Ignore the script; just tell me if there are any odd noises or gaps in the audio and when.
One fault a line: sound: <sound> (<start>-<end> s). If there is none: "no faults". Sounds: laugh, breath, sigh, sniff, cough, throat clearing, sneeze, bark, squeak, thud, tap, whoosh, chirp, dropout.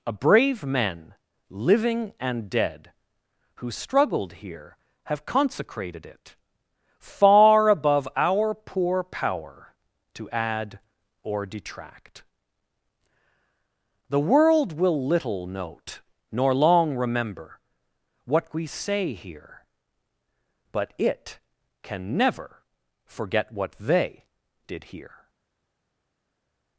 no faults